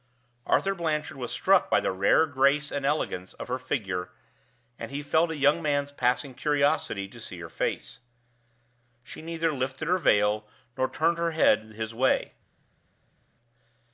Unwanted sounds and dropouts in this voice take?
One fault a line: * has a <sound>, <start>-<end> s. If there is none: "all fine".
all fine